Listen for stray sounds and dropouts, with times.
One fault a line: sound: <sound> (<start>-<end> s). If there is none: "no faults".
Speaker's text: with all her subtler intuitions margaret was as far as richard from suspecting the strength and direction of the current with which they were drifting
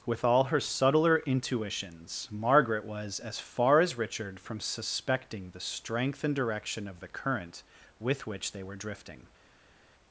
no faults